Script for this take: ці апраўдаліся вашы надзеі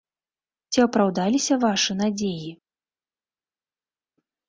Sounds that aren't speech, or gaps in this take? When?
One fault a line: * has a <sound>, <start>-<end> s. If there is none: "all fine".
all fine